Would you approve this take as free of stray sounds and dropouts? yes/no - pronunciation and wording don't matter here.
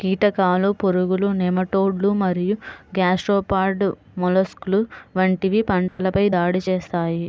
no